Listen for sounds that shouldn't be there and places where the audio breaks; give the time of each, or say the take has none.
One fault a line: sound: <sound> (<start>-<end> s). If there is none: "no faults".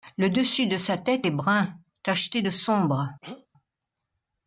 sound: throat clearing (3.2-3.5 s)